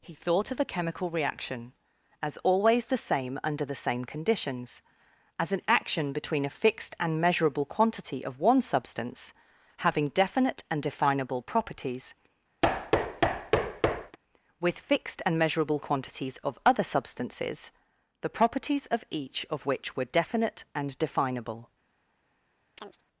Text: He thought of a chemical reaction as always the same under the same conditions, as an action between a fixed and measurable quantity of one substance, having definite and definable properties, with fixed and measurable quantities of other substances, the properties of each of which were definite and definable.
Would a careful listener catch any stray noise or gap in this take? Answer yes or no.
yes